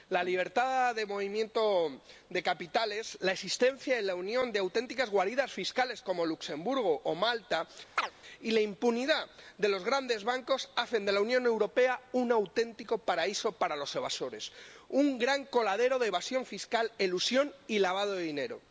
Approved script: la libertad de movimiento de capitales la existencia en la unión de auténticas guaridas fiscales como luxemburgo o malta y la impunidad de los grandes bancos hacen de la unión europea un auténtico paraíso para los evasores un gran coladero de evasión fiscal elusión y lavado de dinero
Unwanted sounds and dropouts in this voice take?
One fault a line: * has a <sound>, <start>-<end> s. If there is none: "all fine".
* has a chirp, 8.0-8.1 s